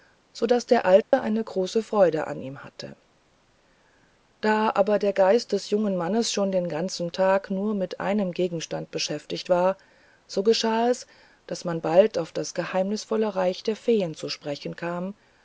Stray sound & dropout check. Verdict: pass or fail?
fail